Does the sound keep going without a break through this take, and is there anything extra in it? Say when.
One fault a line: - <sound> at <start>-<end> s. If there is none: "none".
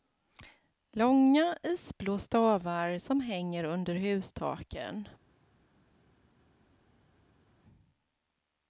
none